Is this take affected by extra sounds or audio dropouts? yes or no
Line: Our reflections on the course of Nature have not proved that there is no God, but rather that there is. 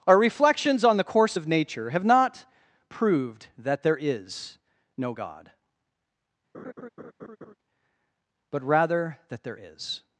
yes